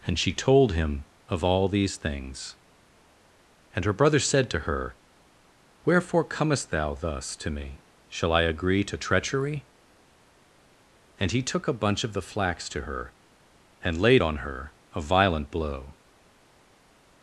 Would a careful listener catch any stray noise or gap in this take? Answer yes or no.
no